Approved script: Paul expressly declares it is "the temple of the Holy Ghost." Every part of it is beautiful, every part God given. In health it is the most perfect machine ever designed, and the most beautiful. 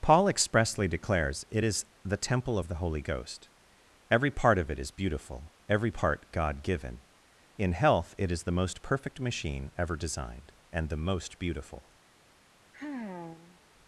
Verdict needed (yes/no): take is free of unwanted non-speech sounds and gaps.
no